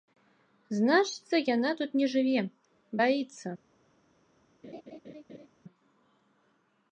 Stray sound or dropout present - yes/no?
yes